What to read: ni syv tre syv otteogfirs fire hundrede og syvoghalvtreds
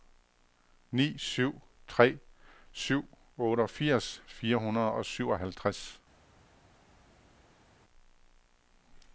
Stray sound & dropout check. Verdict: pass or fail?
pass